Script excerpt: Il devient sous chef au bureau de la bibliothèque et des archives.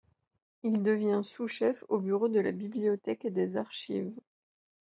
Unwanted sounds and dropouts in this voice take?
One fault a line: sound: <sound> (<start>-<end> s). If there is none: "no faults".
no faults